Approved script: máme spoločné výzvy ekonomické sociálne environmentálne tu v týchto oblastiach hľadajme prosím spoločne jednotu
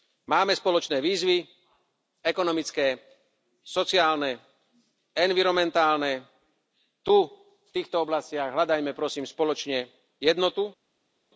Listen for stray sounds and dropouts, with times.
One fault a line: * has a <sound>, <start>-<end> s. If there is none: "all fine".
all fine